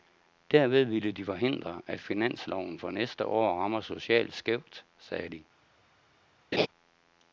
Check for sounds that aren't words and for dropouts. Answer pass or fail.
fail